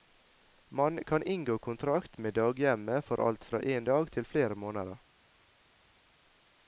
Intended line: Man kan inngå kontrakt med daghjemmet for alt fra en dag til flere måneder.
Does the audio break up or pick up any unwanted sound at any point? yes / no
no